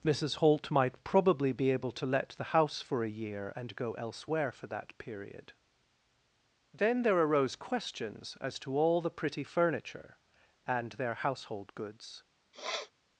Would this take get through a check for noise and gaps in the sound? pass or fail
fail